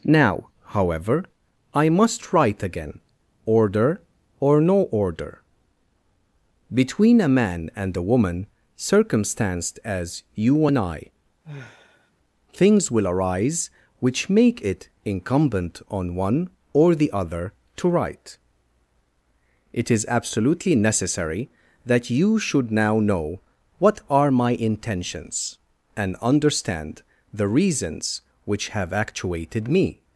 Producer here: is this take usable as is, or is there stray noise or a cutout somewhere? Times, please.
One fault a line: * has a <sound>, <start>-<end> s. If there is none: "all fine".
* has a sigh, 11.4-12.1 s